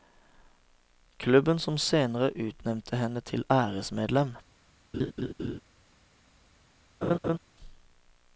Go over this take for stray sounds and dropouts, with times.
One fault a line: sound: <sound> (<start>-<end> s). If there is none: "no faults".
sound: laugh (4.9-5.6 s)
sound: laugh (7.0-7.4 s)